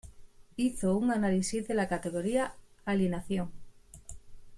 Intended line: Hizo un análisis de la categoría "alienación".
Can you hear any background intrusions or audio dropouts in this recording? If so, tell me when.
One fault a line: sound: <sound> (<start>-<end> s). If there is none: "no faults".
no faults